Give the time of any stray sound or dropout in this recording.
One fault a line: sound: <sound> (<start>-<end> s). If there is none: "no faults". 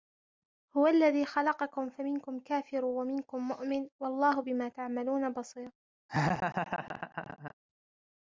sound: laugh (6.1-7.5 s)